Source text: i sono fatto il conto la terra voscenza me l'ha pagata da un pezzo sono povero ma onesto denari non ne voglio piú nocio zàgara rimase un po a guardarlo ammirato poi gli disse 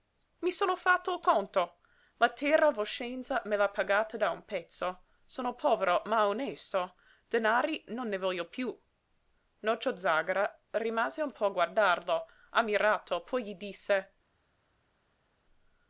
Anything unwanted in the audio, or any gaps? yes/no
no